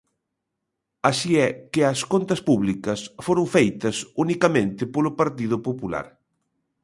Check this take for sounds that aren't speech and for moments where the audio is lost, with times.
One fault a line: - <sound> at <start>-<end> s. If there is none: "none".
none